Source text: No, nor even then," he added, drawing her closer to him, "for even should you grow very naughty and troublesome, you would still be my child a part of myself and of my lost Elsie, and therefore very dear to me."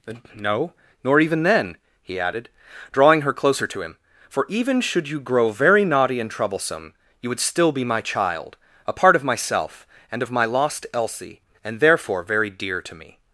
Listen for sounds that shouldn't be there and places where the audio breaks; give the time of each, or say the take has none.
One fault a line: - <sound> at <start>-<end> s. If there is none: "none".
none